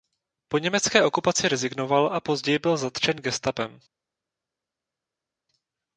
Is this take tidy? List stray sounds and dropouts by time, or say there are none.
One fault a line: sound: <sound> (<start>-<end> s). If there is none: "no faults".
no faults